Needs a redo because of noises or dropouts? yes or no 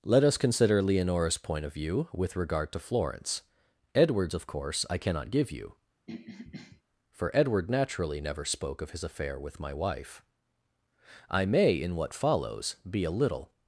yes